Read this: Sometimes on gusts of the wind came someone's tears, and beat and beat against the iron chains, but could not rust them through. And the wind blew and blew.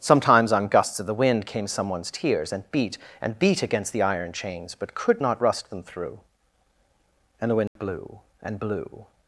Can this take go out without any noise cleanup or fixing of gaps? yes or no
no